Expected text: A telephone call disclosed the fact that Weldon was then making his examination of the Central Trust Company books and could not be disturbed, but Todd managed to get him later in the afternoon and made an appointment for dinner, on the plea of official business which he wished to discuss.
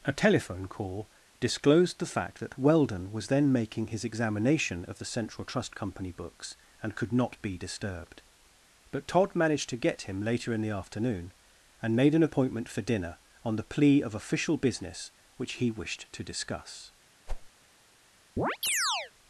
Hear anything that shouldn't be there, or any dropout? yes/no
yes